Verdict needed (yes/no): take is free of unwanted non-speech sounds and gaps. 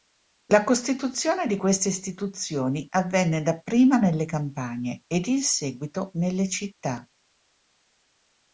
yes